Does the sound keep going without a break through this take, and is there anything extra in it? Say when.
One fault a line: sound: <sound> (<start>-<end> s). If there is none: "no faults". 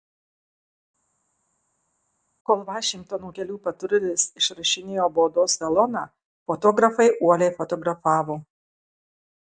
no faults